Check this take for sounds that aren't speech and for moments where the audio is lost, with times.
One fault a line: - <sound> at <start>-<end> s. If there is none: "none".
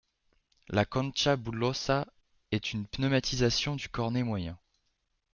none